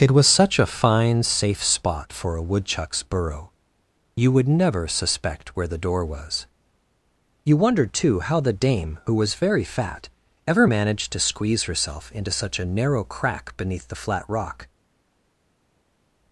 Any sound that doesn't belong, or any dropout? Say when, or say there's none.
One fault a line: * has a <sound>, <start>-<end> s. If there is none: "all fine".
all fine